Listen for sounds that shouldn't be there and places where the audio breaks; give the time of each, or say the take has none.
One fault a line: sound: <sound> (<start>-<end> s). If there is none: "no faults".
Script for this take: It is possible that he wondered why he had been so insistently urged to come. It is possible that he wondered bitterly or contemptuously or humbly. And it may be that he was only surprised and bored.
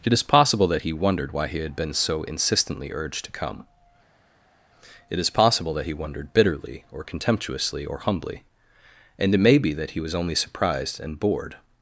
no faults